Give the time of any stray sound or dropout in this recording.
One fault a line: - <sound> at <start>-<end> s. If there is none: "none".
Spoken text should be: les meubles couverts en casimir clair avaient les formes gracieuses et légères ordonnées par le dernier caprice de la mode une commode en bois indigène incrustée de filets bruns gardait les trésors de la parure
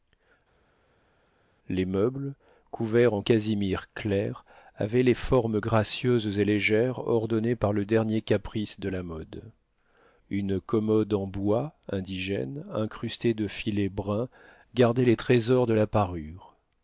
none